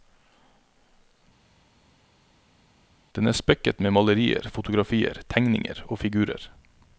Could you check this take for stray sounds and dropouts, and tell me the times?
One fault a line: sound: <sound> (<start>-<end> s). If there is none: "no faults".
no faults